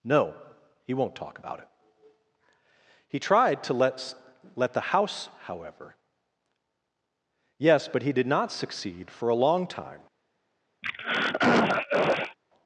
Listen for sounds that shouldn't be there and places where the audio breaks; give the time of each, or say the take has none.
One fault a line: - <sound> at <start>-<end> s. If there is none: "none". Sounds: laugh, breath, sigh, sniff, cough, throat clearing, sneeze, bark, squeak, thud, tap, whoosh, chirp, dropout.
- throat clearing at 10.8-12.4 s